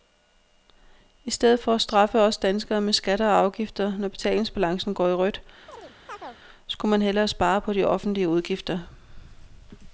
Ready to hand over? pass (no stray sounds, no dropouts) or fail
fail